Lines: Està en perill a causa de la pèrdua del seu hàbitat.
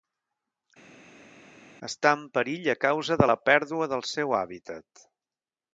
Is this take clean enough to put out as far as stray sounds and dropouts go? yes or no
yes